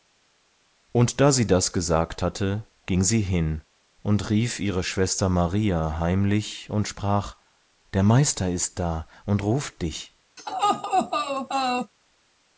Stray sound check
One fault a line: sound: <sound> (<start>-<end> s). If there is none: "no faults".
sound: laugh (10.4-11.9 s)